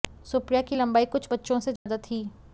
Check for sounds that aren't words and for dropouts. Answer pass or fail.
fail